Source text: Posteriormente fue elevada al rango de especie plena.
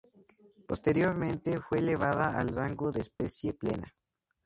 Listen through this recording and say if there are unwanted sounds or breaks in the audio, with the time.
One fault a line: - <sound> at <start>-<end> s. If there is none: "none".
- dropout at 3.2-3.2 s